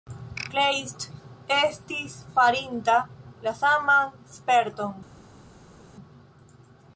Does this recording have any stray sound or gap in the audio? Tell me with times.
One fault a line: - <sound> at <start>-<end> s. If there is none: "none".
none